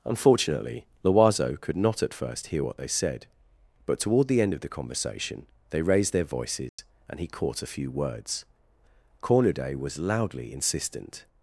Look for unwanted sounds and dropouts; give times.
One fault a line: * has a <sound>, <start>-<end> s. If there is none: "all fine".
* has a dropout, 6.7-6.8 s